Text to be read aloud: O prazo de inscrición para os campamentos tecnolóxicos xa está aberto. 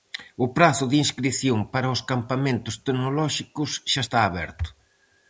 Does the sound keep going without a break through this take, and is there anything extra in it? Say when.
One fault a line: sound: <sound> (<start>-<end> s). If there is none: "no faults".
no faults